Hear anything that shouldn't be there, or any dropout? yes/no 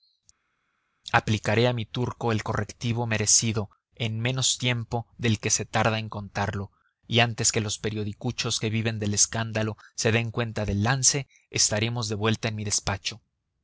no